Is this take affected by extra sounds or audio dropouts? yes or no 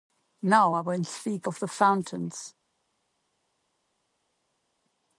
no